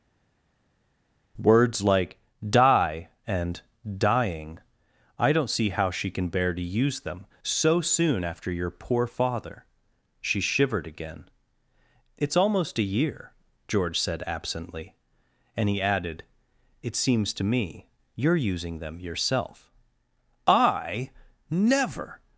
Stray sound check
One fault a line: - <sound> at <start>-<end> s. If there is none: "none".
none